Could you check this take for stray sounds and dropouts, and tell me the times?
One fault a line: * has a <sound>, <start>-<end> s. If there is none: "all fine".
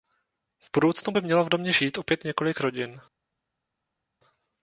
all fine